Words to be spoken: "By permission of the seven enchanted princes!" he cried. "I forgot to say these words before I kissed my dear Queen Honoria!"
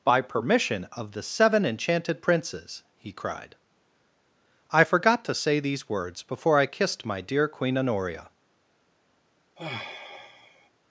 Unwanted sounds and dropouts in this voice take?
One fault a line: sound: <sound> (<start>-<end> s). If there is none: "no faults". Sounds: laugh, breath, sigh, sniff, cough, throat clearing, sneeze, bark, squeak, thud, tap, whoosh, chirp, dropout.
sound: sigh (9.6-10.7 s)